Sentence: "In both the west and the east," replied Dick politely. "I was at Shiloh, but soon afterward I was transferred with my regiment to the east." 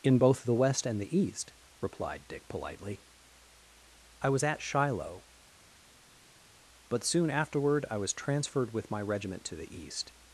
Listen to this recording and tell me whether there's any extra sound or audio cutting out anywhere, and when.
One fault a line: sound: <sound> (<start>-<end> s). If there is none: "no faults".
no faults